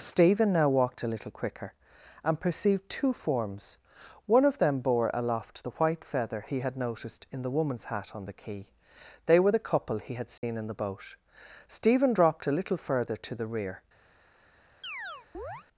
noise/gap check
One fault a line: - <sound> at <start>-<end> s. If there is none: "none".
- dropout at 10.4-10.4 s
- chirp at 14.8-15.7 s